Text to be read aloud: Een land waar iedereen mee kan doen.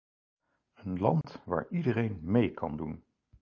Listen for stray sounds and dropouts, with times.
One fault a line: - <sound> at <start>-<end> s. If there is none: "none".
- dropout at 1.2-1.2 s